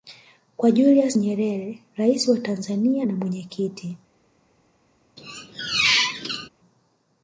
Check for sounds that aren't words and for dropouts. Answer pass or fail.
fail